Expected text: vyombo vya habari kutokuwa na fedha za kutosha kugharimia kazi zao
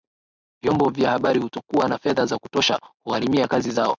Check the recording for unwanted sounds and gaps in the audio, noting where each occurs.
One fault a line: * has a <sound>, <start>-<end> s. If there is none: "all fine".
all fine